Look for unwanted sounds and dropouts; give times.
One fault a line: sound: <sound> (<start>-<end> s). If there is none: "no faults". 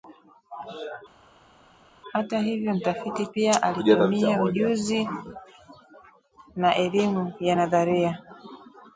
no faults